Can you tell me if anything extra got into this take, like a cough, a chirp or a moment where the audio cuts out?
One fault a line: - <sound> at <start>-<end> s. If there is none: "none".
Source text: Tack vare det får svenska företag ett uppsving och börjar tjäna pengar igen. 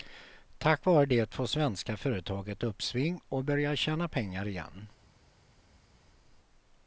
none